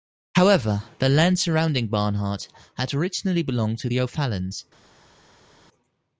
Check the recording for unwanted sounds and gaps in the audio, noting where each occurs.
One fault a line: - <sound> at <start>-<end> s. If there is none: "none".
none